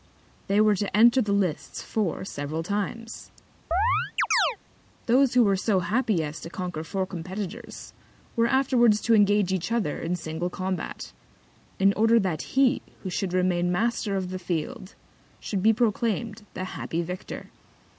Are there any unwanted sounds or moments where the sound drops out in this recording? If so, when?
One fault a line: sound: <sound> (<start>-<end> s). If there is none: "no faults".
sound: chirp (3.7-4.6 s)